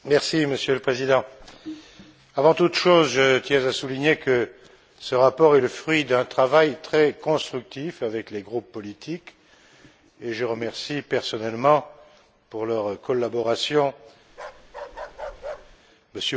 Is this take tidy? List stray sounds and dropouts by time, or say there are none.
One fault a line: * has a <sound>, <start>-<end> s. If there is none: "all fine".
* has a bark, 14.3-15.8 s